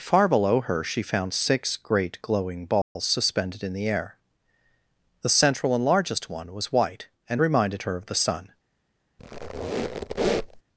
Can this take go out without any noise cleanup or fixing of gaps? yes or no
no